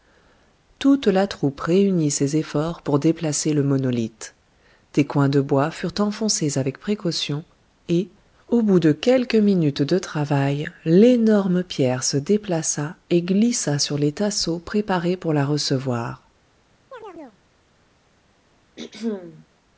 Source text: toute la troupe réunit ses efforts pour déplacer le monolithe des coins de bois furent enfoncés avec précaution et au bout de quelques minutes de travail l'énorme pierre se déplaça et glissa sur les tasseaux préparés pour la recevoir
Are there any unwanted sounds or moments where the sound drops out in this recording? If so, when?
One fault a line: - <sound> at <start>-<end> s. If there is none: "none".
- chirp at 16.9-17.4 s
- throat clearing at 18.8-19.5 s